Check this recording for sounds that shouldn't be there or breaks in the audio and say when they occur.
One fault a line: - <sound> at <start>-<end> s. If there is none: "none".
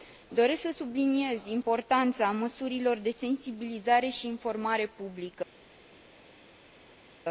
none